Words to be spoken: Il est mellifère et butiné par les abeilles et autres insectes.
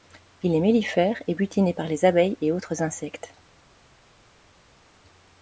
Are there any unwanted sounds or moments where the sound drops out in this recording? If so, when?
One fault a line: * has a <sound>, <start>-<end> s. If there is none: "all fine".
all fine